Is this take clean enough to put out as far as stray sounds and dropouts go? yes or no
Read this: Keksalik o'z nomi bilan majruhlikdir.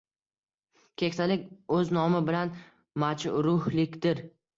yes